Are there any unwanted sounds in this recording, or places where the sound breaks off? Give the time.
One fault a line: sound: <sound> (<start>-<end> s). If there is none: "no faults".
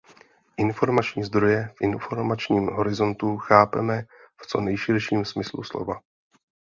no faults